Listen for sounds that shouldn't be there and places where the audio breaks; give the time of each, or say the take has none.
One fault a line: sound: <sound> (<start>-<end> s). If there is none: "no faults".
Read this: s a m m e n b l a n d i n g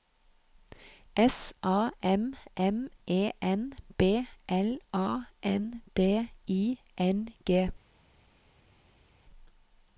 no faults